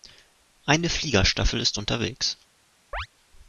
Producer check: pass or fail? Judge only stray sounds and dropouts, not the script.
fail